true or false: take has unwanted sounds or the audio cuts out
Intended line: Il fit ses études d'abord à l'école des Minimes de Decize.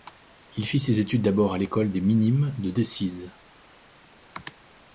false